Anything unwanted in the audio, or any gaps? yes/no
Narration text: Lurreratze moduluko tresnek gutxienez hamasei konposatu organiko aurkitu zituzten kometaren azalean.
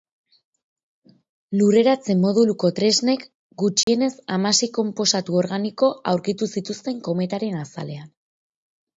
yes